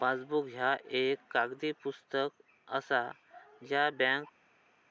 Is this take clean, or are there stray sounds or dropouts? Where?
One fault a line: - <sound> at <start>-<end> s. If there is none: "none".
none